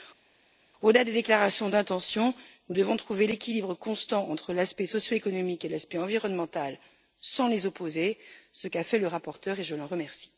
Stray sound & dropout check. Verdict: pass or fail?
pass